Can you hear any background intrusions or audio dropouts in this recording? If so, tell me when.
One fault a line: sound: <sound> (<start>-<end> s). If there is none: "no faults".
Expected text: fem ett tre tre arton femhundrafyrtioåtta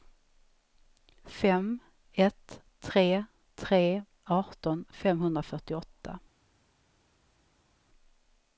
no faults